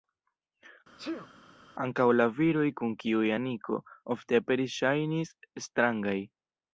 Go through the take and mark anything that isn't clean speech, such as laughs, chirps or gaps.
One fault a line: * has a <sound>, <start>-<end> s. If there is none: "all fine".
* has a sneeze, 1.0-1.3 s